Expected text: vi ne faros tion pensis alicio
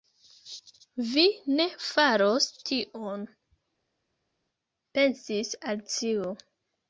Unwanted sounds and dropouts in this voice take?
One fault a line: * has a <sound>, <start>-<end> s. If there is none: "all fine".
all fine